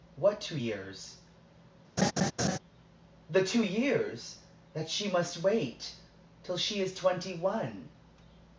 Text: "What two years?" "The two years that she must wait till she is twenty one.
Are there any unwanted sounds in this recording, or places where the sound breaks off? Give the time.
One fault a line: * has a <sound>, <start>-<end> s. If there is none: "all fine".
* has a laugh, 2.0-2.6 s